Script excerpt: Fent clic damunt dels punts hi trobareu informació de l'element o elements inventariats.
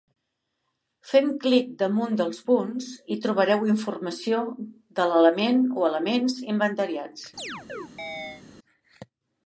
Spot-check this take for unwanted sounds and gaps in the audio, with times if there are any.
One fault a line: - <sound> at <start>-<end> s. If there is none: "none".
- chirp at 7.4-8.4 s